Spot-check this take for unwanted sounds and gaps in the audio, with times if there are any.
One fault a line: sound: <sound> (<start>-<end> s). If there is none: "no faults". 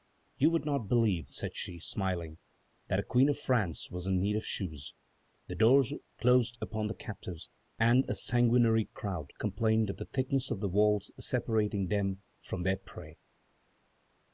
no faults